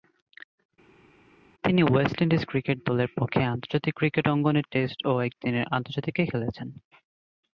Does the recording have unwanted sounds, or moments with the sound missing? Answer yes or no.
no